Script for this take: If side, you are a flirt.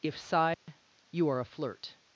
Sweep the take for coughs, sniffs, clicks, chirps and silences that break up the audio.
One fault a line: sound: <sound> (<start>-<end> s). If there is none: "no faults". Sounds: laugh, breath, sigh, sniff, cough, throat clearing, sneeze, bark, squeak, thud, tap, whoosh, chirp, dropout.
sound: dropout (0.5-0.7 s)